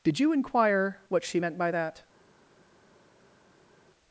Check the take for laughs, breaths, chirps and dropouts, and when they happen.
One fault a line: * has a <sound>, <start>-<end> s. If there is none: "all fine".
all fine